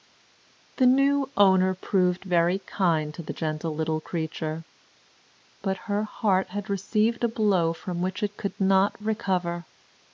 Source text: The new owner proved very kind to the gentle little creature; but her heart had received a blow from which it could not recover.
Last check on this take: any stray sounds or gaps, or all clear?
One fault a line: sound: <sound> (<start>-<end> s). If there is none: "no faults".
no faults